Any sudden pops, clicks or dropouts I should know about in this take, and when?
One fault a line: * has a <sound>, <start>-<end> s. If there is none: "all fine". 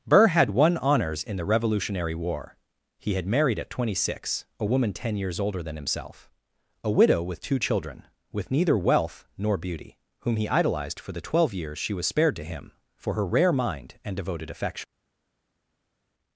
all fine